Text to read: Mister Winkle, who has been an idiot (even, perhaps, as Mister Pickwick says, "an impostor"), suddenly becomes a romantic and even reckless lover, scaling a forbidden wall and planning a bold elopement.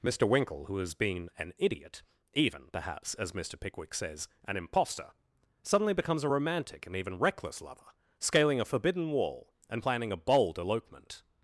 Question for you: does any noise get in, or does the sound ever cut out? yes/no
no